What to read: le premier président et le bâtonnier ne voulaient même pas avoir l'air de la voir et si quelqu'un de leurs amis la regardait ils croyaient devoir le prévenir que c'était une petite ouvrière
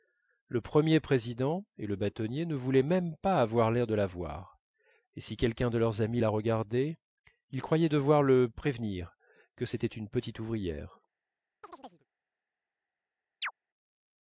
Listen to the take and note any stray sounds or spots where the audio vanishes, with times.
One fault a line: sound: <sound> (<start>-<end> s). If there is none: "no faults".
sound: chirp (11.6-12.1 s)
sound: chirp (13.4-13.5 s)